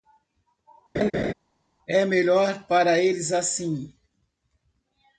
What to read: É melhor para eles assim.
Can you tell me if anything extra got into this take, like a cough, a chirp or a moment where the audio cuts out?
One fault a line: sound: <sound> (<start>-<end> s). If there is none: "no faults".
sound: laugh (0.9-1.3 s)